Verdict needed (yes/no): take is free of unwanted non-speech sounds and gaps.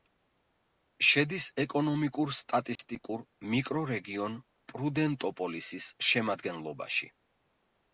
no